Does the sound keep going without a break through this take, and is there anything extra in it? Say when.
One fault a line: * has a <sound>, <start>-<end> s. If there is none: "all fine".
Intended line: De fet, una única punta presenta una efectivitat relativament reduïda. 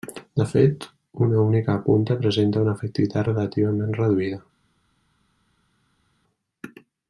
all fine